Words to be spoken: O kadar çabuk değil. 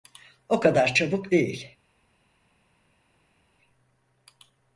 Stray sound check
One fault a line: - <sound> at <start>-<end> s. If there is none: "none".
none